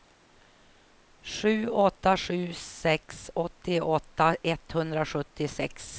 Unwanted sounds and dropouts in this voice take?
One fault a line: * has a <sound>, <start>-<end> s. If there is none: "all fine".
all fine